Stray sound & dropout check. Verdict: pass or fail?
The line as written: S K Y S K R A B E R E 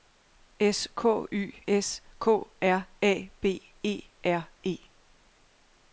pass